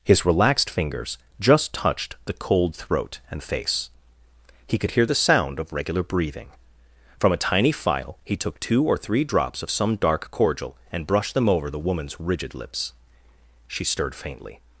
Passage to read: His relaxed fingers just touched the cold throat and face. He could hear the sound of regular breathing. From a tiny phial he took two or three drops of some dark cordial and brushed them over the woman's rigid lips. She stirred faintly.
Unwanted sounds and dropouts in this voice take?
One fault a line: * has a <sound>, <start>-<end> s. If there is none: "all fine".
all fine